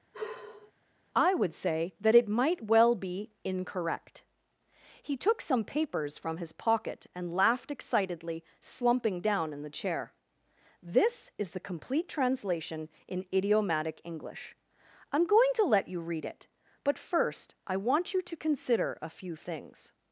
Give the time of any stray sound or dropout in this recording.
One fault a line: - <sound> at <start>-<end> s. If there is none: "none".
- sigh at 0.1-0.7 s